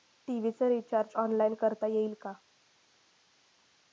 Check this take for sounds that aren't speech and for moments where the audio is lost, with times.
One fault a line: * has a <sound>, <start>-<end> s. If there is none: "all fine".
all fine